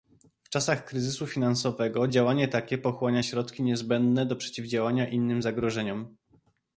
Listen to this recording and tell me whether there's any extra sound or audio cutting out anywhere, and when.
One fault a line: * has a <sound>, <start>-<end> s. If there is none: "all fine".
all fine